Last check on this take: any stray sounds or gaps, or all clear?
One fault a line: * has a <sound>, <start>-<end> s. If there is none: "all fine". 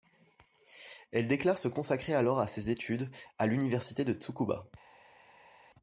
all fine